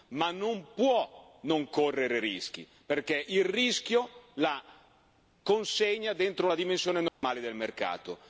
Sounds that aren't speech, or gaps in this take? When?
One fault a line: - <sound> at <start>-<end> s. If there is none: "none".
- dropout at 7.1-7.2 s